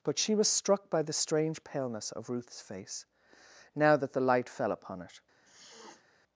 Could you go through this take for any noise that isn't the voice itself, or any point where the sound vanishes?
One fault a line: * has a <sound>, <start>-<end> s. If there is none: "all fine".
* has a sniff, 5.4-6.0 s